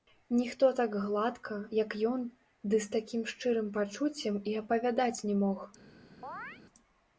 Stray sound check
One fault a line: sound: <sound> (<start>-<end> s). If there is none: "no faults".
sound: chirp (6.2-6.6 s)